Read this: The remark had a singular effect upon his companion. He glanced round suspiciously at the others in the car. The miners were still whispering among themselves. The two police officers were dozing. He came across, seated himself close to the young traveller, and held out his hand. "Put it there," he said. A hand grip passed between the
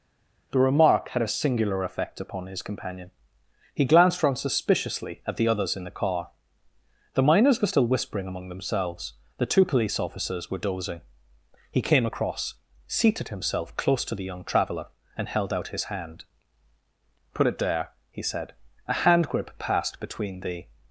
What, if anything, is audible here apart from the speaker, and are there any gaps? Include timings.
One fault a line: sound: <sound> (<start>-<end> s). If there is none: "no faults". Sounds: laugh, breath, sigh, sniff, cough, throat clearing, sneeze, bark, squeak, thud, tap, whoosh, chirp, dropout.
no faults